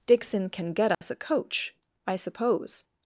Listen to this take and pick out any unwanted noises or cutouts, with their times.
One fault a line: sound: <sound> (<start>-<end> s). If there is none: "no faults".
sound: dropout (0.9-1.0 s)